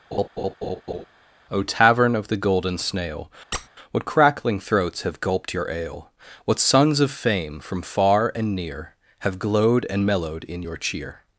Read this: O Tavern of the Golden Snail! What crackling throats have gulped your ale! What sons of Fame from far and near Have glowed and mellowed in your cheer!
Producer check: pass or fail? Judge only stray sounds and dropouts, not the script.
fail